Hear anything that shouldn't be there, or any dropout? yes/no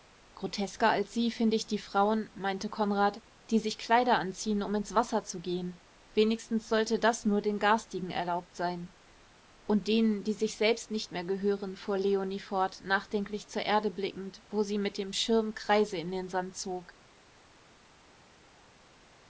no